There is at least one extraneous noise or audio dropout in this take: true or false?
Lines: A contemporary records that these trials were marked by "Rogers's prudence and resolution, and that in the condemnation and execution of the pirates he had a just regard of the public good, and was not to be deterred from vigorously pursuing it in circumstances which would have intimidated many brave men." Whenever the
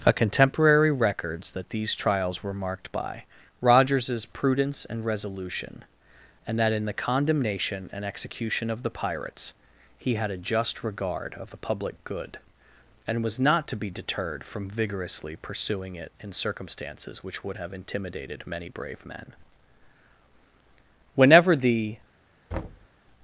true